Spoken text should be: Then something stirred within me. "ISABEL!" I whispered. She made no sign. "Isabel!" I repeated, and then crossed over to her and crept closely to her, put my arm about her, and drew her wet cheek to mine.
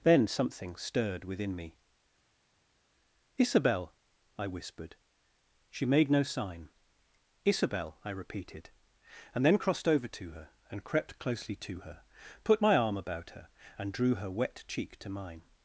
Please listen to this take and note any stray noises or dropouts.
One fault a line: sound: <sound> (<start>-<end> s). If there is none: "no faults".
no faults